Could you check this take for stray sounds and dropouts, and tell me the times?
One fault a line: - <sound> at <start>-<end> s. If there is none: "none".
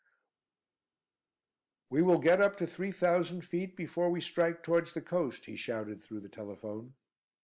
none